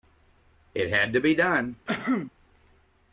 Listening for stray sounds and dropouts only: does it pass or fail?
fail